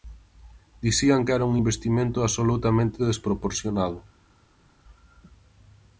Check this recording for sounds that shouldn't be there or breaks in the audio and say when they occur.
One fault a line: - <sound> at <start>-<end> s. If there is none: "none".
none